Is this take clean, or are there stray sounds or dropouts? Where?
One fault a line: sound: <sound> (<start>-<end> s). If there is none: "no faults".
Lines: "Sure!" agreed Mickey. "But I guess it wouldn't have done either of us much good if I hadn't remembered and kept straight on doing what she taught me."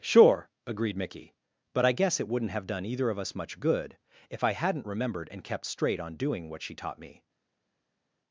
no faults